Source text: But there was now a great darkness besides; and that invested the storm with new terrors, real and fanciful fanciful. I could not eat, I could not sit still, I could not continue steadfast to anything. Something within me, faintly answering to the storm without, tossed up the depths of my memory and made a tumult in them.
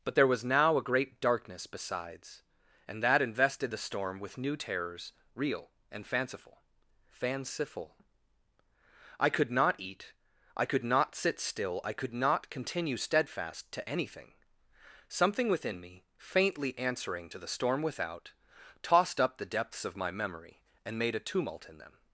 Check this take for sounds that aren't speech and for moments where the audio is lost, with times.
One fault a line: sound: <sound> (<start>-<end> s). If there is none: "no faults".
no faults